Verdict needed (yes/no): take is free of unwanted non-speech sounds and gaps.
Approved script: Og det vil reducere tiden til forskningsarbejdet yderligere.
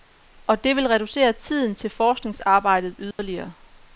no